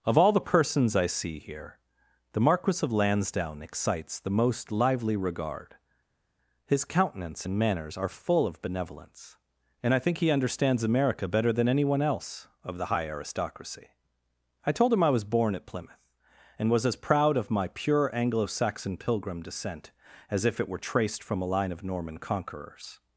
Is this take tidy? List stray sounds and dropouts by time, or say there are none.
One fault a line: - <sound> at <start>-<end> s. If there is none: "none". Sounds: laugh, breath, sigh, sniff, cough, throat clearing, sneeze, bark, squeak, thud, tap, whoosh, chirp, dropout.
none